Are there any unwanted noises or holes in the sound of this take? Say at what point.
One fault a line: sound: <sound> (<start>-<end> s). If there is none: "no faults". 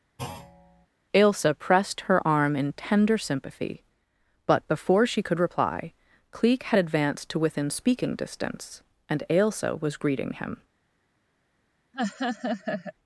sound: thud (0.2-0.9 s)
sound: laugh (11.9-12.9 s)